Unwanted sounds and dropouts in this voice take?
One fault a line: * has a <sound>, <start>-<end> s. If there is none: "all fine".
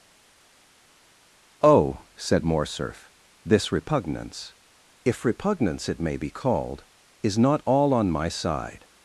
all fine